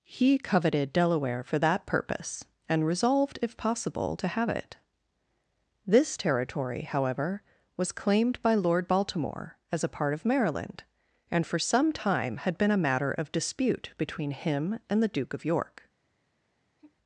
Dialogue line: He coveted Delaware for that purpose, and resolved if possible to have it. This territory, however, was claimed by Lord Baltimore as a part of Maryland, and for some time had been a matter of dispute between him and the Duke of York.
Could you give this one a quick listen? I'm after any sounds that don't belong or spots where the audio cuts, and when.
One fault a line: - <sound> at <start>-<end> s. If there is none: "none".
- sigh at 16.8-17.0 s